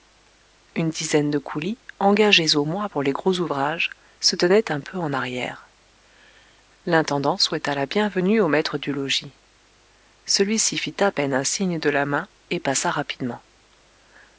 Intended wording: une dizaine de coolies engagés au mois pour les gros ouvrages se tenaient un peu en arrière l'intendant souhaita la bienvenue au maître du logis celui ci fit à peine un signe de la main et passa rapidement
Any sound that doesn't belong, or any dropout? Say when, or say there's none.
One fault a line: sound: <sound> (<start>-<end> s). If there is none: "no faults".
no faults